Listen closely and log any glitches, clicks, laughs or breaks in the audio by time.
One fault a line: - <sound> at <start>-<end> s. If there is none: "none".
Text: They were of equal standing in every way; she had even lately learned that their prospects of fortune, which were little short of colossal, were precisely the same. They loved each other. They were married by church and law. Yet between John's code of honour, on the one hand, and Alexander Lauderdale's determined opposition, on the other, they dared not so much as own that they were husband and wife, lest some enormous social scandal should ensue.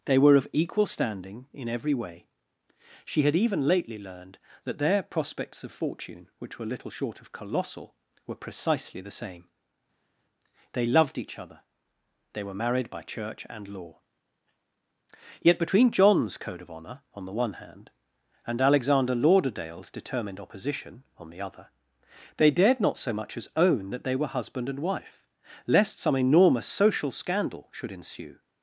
none